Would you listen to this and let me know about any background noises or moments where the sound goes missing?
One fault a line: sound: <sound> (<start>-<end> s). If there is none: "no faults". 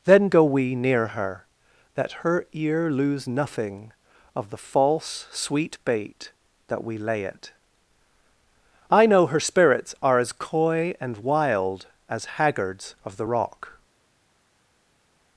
no faults